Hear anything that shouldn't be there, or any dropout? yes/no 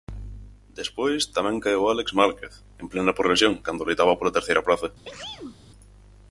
yes